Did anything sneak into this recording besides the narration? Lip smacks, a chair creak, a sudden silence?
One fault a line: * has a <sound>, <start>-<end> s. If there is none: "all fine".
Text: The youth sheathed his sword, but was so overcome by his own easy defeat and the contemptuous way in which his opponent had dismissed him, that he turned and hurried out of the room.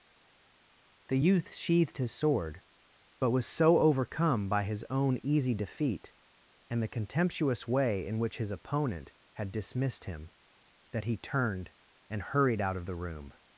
all fine